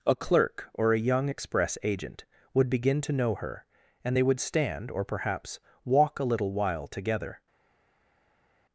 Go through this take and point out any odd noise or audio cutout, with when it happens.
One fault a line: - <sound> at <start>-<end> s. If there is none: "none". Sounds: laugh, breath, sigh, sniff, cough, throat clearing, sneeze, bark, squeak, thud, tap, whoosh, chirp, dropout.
none